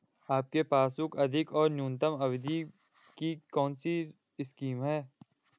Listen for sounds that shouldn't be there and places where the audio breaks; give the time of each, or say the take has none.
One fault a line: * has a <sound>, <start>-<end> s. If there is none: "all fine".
all fine